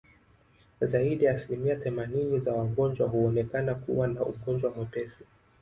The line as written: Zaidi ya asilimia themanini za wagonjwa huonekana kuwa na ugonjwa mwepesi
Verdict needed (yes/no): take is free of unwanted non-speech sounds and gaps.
yes